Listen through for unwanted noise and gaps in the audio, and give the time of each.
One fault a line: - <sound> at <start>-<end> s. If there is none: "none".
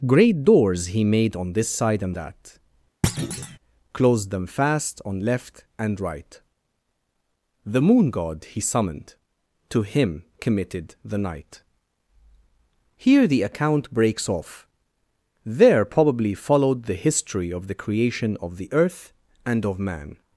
- thud at 3.0-3.6 s